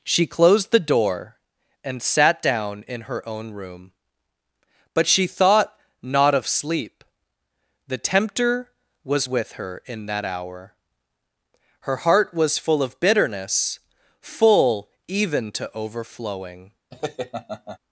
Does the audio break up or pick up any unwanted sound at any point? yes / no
yes